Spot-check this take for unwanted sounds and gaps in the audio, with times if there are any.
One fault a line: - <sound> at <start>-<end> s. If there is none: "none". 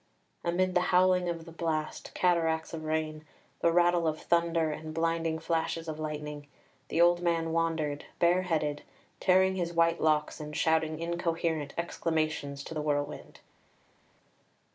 none